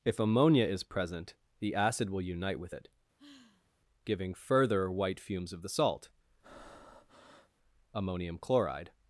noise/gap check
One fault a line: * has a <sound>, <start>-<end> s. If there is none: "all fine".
* has a sigh, 3.2-3.7 s
* has a breath, 6.4-7.5 s